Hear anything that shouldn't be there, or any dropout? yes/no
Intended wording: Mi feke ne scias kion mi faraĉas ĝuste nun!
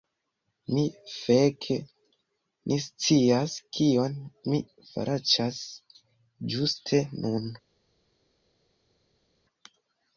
no